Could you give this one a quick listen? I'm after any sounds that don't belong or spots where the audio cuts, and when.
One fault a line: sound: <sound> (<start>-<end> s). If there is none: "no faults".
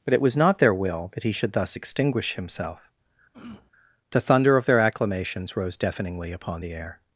sound: throat clearing (3.3-3.7 s)